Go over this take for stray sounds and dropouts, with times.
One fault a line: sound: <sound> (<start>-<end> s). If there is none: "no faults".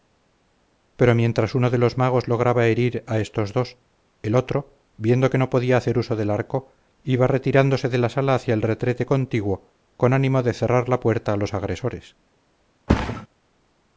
sound: thud (12.9-13.3 s)